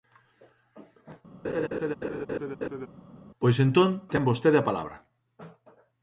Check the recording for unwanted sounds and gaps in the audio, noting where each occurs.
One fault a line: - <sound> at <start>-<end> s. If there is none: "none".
- laugh at 1.4-2.9 s